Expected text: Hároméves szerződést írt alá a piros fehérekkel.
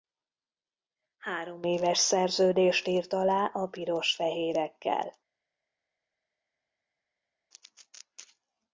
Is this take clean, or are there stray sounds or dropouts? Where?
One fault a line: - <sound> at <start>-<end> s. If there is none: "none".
none